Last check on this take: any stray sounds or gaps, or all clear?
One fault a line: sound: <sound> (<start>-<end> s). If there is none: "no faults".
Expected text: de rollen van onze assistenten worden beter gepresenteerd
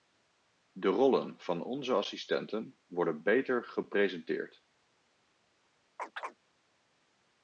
sound: chirp (6.0-6.4 s)